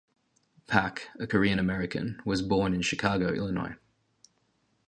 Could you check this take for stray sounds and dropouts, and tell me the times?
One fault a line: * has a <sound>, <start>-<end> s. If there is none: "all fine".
all fine